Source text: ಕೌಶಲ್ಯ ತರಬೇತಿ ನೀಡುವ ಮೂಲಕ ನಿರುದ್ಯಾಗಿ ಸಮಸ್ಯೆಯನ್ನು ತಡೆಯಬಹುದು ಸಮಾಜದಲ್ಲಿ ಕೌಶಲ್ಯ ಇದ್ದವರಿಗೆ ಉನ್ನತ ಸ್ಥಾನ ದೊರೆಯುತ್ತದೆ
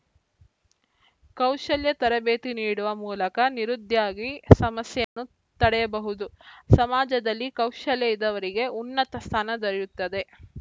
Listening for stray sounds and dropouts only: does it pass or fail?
fail